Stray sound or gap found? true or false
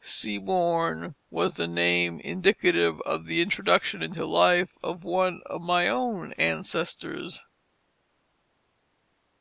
false